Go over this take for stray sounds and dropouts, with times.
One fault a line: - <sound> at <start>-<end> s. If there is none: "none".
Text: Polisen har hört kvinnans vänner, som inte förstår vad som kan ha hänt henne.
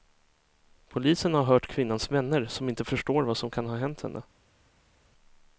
none